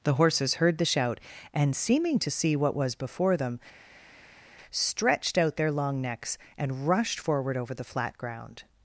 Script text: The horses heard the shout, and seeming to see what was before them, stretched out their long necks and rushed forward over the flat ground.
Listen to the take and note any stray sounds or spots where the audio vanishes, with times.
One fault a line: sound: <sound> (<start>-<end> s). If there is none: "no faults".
no faults